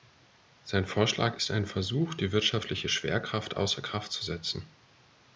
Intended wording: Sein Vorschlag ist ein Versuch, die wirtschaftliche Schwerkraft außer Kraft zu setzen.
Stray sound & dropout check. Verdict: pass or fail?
pass